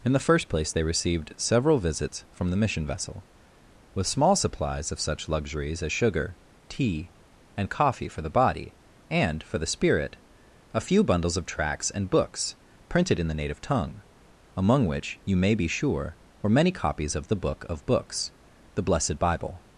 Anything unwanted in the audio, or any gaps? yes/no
no